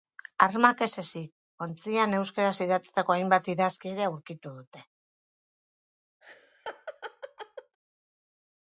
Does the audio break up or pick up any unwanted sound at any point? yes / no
yes